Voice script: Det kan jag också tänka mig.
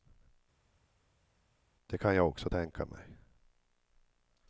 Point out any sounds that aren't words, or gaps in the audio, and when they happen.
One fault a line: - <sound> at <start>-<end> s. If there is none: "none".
none